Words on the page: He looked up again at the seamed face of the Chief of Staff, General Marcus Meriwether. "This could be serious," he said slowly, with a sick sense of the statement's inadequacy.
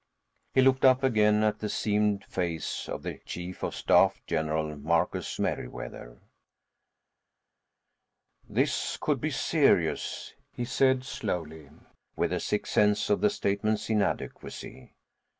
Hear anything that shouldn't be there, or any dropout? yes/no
no